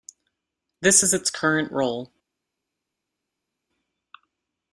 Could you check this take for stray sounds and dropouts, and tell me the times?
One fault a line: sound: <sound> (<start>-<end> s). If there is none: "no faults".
no faults